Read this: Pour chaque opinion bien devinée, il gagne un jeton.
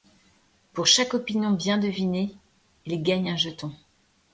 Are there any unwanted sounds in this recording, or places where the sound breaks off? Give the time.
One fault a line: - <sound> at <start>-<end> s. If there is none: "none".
none